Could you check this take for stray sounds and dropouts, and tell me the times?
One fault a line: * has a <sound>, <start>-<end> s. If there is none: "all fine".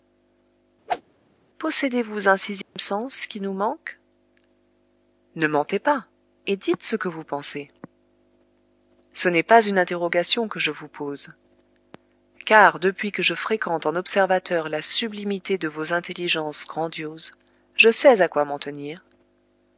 * has a whoosh, 0.9-1.0 s
* has a dropout, 2.6-2.8 s